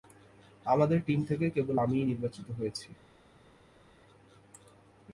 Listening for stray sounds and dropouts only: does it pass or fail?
pass